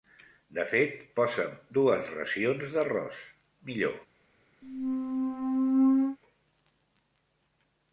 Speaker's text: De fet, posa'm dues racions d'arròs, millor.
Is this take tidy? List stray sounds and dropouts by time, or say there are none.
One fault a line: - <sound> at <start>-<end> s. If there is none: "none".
- squeak at 4.6-6.2 s